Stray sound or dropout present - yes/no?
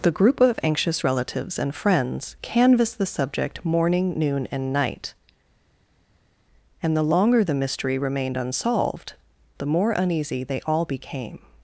no